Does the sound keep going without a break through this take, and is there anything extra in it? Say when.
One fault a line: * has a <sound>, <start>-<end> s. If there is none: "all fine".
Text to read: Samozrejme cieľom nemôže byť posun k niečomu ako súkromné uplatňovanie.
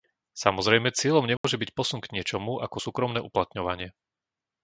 * has a dropout, 1.4-1.4 s